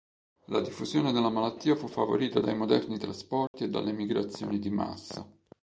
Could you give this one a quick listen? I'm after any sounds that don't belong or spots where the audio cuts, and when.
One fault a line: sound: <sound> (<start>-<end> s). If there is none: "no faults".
sound: dropout (3.5-3.5 s)